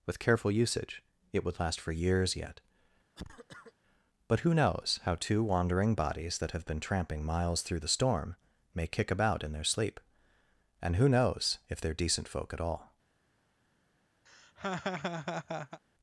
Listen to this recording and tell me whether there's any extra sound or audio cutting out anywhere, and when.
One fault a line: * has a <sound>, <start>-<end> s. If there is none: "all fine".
* has a cough, 3.1-3.7 s
* has a laugh, 14.3-15.8 s